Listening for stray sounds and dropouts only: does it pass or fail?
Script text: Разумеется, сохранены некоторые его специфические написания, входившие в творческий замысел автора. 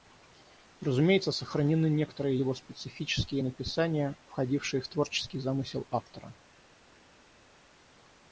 pass